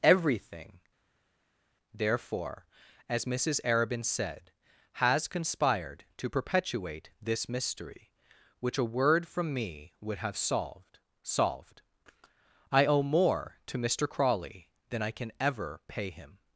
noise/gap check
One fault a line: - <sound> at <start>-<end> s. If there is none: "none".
none